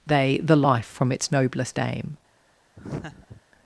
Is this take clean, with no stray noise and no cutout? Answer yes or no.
no